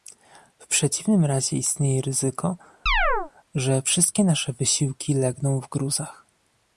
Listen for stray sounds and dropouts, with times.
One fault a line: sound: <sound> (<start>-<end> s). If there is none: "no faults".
sound: chirp (2.9-3.3 s)